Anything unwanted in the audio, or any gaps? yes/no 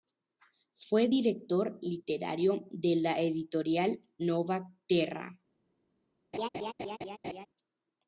yes